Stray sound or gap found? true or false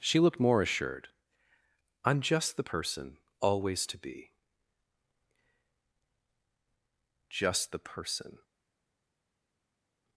false